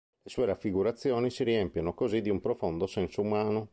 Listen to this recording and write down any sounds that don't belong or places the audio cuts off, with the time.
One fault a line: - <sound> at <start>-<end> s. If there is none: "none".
none